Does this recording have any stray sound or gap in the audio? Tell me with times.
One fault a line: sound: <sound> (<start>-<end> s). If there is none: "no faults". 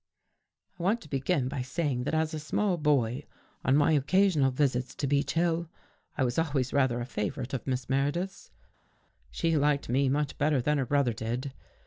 no faults